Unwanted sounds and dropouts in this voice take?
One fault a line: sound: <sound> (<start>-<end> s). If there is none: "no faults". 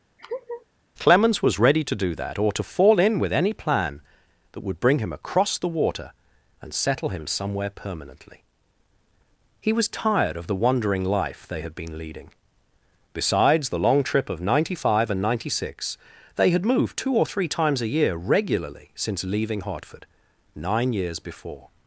sound: laugh (0.2-0.7 s)